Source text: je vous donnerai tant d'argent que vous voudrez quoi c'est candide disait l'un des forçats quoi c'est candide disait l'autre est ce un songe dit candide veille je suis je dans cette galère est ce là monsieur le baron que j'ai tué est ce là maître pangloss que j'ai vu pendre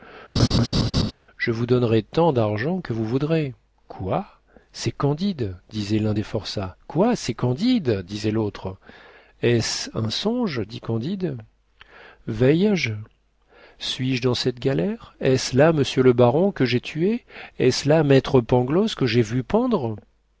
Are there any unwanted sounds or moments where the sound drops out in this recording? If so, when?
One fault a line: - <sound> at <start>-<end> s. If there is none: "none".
- laugh at 0.4-1.1 s